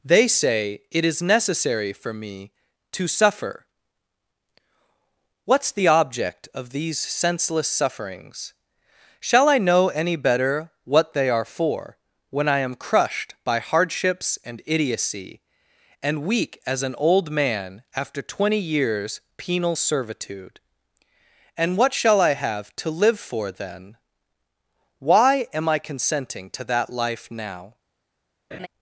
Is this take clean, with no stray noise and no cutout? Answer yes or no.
no